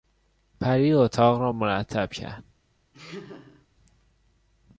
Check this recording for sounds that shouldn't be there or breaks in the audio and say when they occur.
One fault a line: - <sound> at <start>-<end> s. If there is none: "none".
- laugh at 2.9-3.7 s